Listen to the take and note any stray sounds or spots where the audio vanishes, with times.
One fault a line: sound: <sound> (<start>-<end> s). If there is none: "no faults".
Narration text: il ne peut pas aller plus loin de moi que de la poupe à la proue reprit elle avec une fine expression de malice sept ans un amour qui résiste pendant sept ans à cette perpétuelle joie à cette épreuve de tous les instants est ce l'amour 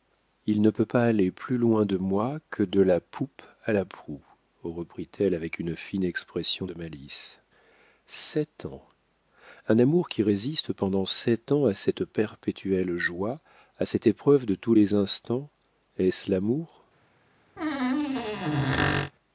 sound: squeak (17.6-19.1 s)